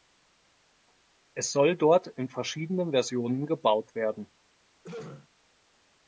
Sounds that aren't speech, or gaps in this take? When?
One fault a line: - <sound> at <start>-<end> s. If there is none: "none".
- throat clearing at 4.8-5.3 s